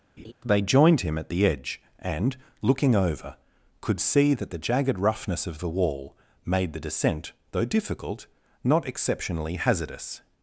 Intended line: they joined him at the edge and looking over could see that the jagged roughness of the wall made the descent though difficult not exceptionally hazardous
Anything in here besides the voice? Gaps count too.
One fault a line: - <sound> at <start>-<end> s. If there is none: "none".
- laugh at 0.2-0.3 s